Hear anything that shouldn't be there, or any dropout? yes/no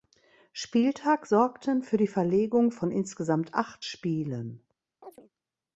yes